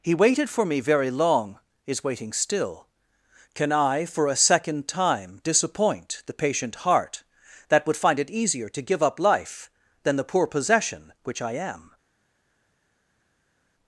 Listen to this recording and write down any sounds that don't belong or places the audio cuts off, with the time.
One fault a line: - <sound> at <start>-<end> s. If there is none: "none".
none